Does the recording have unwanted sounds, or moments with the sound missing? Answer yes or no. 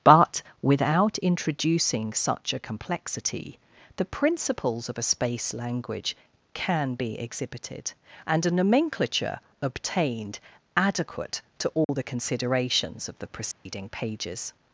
yes